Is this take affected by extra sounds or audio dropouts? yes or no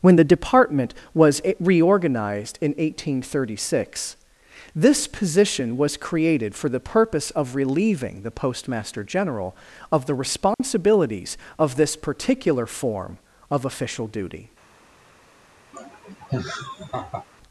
yes